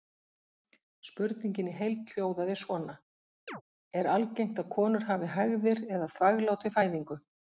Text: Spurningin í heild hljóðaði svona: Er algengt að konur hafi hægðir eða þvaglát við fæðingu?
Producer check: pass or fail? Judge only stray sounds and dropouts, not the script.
fail